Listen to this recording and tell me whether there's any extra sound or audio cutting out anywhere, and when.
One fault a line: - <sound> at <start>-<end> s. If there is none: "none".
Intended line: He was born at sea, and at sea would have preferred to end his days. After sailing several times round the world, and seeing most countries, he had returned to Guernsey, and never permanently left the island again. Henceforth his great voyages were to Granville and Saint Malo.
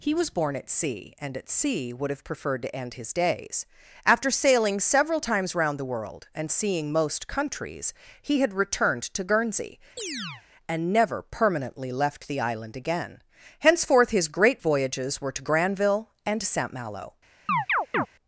- chirp at 10.0-10.4 s
- chirp at 17.5-18.1 s